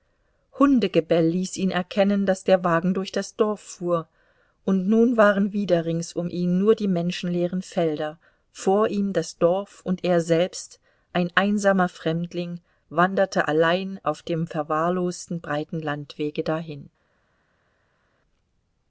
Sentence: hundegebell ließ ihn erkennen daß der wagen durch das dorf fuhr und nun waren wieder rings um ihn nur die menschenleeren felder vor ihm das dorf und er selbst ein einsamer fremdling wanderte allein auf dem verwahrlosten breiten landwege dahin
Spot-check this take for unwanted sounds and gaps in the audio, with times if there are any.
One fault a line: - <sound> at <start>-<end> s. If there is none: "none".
none